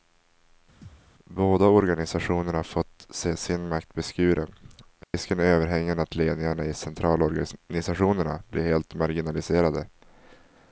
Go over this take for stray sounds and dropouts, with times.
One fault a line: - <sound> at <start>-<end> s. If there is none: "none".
- thud at 0.8-1.1 s
- dropout at 5.0-5.1 s